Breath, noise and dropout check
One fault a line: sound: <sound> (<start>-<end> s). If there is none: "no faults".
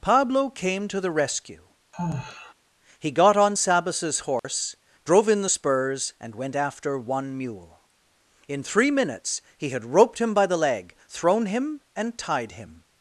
sound: sigh (1.9-2.5 s)
sound: dropout (4.4-4.4 s)